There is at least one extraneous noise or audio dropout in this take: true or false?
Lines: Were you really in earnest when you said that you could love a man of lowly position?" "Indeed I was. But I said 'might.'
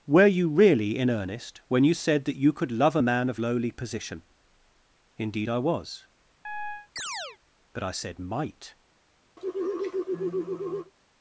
true